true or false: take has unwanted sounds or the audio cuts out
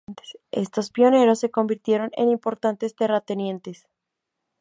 false